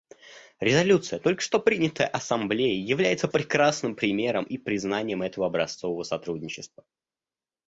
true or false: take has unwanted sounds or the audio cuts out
false